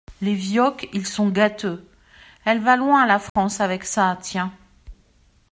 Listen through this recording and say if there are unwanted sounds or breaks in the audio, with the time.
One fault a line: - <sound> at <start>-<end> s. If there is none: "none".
- dropout at 3.3-3.4 s